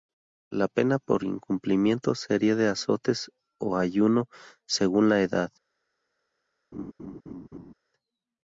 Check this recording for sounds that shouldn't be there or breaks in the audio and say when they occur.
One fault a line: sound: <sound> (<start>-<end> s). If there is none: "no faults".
sound: laugh (6.7-7.7 s)